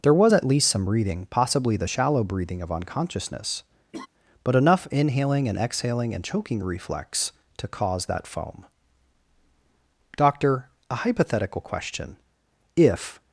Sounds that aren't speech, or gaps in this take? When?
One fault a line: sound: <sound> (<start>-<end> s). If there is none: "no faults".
sound: laugh (3.9-4.1 s)